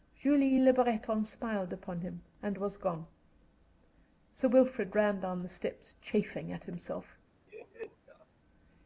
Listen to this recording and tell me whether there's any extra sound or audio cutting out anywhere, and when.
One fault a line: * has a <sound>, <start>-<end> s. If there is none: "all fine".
* has a laugh, 7.5-8.3 s